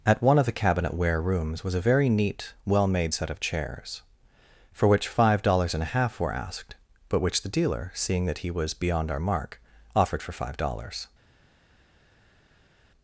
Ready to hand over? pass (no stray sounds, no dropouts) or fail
pass